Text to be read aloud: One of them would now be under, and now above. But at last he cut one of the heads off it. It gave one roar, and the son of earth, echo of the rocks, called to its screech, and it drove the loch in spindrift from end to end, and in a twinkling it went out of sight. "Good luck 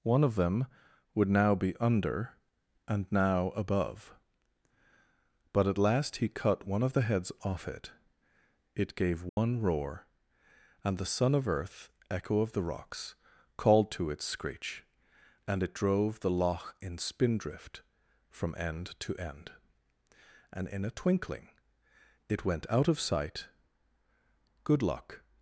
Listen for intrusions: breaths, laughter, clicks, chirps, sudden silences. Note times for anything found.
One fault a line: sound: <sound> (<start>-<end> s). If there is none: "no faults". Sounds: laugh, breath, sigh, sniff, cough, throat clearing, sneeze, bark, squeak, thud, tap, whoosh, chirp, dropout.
sound: dropout (9.3-9.4 s)